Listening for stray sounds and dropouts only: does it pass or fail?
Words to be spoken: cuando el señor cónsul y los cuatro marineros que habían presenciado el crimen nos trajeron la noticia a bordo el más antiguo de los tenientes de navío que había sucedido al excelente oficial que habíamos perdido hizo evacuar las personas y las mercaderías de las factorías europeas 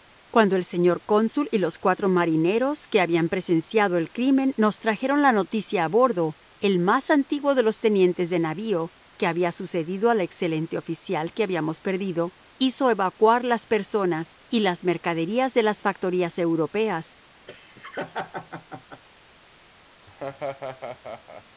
fail